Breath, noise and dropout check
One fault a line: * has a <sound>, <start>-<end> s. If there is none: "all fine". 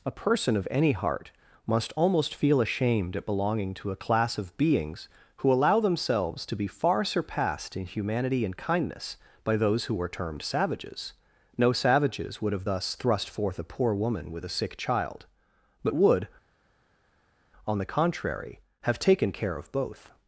all fine